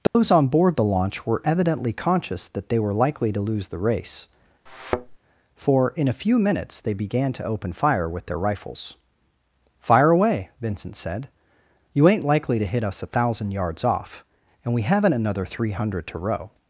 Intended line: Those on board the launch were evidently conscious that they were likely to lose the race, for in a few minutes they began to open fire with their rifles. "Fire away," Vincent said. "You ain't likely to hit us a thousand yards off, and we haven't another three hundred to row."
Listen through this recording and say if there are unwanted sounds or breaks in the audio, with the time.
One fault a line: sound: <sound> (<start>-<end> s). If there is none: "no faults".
sound: dropout (0.1-0.2 s)
sound: thud (4.7-5.2 s)